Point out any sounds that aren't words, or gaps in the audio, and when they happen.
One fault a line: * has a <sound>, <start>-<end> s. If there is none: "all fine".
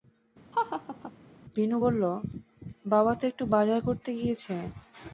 * has a laugh, 0.5-1.1 s